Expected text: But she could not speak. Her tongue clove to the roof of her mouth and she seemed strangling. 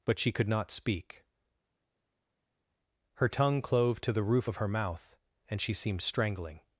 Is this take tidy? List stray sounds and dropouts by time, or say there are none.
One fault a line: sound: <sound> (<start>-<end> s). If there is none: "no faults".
no faults